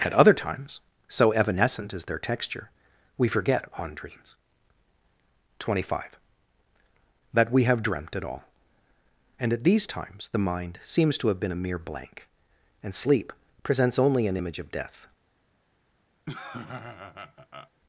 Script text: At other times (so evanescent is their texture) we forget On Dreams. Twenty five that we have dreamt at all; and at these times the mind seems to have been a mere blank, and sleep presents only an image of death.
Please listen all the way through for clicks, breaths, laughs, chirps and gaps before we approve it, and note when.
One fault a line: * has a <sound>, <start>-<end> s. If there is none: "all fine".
* has a laugh, 16.3-17.7 s